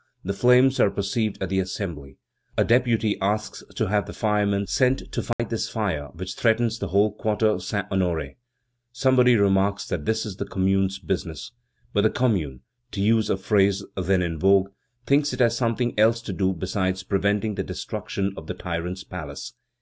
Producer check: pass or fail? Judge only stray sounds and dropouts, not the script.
fail